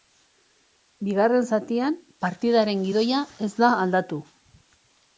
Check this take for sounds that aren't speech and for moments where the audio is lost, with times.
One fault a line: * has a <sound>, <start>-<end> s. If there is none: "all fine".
all fine